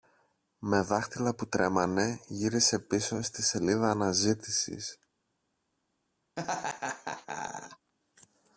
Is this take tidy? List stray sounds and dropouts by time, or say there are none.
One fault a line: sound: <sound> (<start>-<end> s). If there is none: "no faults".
sound: laugh (6.4-7.9 s)